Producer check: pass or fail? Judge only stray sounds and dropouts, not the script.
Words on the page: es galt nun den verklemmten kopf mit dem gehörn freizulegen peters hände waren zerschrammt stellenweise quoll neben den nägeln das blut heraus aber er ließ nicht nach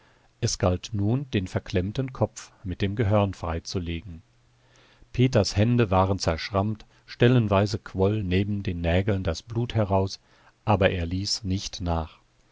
pass